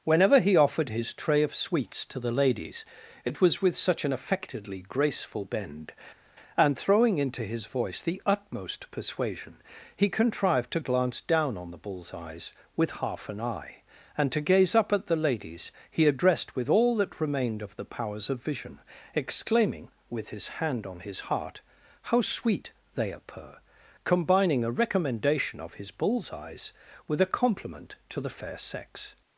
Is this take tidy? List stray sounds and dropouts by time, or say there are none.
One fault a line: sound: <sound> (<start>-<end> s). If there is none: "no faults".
no faults